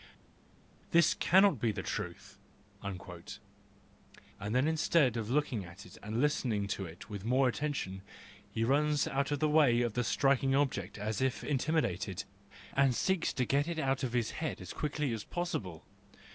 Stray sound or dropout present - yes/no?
no